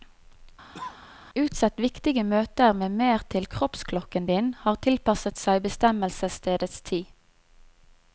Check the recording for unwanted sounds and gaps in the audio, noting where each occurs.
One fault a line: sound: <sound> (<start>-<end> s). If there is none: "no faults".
sound: cough (0.7-1.0 s)